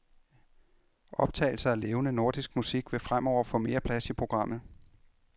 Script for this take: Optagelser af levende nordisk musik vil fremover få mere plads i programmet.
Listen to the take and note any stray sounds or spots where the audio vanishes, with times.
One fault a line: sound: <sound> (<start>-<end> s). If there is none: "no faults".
no faults